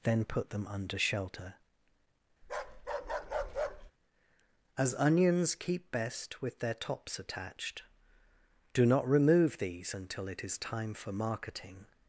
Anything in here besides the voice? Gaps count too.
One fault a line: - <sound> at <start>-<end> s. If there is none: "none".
- bark at 2.4-3.9 s